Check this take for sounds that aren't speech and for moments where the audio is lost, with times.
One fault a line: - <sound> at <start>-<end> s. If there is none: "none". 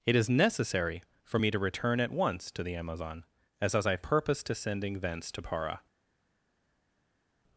none